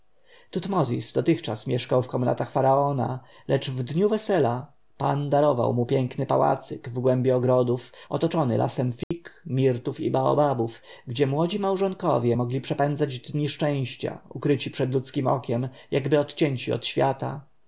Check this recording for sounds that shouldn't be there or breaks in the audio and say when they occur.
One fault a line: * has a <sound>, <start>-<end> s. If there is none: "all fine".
* has a dropout, 9.0-9.1 s